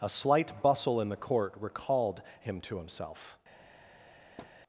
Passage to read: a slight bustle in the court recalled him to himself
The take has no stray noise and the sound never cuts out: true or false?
false